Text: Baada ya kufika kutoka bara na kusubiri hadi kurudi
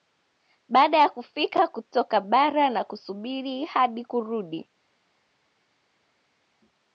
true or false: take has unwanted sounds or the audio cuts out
false